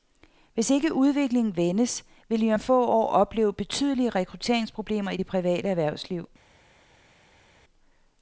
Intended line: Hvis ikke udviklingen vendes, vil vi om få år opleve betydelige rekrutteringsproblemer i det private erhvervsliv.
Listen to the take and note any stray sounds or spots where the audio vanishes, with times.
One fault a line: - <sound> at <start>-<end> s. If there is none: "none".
none